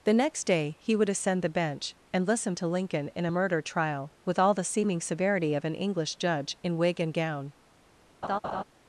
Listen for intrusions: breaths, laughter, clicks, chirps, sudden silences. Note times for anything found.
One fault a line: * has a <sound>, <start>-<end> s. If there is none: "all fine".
* has a laugh, 8.2-8.6 s